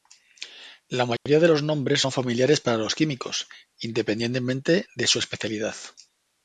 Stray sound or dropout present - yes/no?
yes